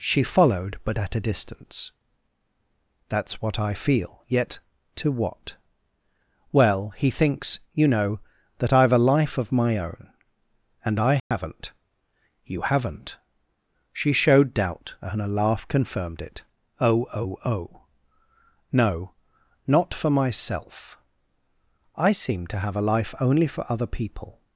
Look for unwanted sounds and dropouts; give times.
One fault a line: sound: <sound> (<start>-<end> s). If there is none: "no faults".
sound: dropout (11.2-11.3 s)